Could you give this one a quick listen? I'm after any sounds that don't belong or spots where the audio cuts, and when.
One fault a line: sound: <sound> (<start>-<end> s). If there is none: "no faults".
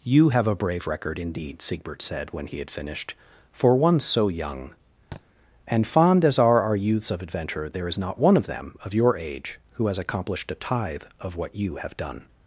sound: thud (5.1-5.2 s)